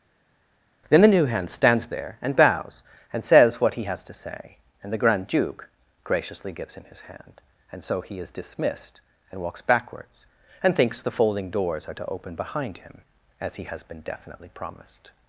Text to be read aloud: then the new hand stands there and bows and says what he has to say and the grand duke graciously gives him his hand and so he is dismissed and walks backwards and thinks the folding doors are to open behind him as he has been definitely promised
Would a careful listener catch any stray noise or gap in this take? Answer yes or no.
no